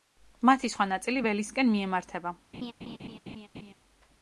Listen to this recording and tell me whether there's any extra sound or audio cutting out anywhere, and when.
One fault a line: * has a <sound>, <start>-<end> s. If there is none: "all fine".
* has a laugh, 2.5-3.7 s